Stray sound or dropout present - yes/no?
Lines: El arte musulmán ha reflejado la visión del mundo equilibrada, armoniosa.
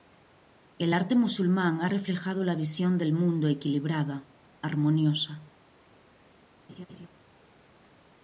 yes